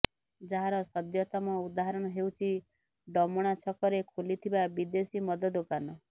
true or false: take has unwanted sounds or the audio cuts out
false